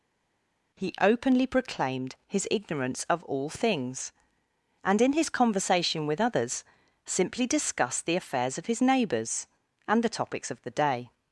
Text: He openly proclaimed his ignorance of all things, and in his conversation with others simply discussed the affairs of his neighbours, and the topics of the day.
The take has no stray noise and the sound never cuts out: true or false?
true